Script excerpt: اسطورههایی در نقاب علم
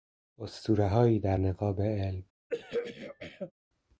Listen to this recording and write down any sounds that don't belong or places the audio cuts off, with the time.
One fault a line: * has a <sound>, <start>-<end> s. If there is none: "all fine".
* has a throat clearing, 2.5-3.5 s